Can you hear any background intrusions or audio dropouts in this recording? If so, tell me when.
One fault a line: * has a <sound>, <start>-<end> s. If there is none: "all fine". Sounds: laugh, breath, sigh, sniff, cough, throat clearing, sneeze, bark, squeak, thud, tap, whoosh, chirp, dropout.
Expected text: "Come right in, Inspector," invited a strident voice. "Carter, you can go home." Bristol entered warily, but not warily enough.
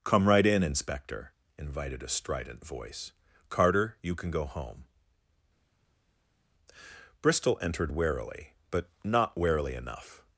all fine